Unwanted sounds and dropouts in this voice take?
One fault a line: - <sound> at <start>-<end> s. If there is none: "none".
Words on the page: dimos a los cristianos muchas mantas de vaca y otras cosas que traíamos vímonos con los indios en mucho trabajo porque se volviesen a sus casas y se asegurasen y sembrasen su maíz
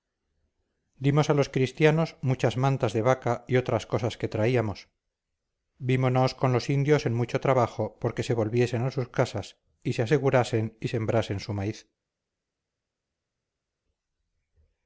none